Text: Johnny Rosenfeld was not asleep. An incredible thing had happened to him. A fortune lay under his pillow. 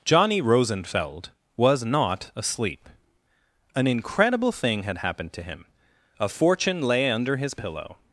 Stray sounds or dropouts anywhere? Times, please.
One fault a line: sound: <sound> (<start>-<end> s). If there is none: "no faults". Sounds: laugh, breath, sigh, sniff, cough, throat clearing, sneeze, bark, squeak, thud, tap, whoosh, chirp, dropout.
no faults